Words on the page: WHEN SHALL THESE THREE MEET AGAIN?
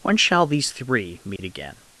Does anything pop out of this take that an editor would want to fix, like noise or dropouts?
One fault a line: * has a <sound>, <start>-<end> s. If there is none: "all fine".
* has a dropout, 1.4-1.4 s